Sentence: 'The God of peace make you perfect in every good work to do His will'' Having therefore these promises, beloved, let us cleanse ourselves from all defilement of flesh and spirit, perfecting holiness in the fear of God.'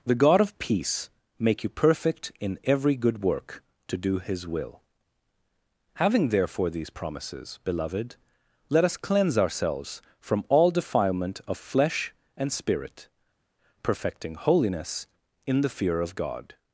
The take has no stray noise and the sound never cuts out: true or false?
true